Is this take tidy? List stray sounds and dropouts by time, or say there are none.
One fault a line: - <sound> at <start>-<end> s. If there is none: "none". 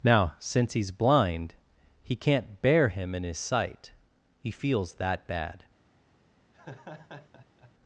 - laugh at 6.5-7.7 s